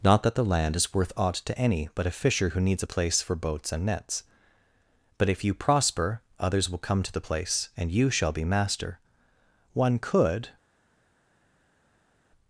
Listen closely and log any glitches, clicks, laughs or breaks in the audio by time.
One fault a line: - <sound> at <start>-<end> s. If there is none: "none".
none